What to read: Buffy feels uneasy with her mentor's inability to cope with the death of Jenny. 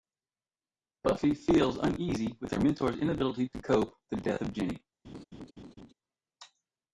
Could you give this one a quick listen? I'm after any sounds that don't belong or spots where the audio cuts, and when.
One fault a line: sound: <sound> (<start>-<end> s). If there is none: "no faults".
sound: laugh (5.0-5.9 s)